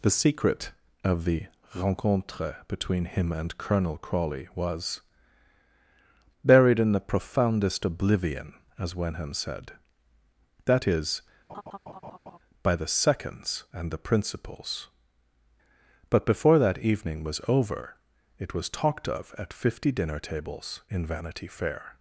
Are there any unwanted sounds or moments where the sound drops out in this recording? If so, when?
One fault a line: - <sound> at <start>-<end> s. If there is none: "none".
- laugh at 11.5-12.4 s